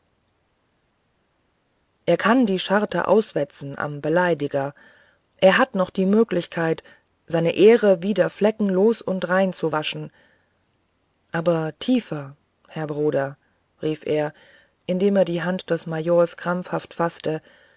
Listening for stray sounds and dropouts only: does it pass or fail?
pass